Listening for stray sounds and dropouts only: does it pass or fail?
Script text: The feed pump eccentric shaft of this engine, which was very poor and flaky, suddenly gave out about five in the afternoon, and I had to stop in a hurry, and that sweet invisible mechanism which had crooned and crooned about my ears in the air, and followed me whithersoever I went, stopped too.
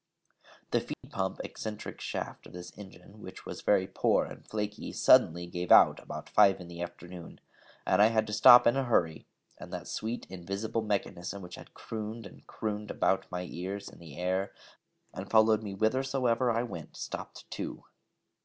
fail